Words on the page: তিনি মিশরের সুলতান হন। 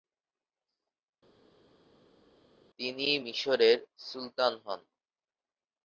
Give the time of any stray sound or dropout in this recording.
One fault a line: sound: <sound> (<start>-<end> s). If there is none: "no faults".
no faults